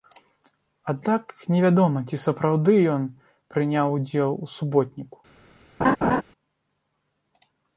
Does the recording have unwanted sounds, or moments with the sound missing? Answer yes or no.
yes